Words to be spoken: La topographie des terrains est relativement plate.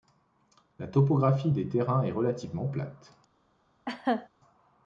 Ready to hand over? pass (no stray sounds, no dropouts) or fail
fail